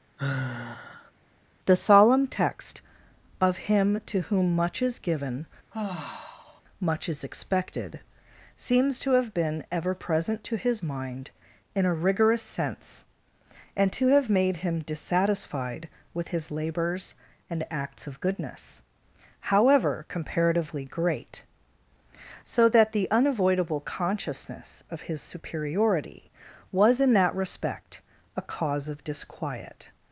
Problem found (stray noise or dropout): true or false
true